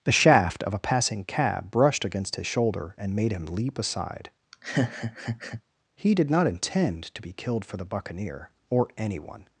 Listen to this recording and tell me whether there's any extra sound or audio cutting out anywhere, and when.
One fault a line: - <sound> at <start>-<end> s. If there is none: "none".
- laugh at 4.5-5.6 s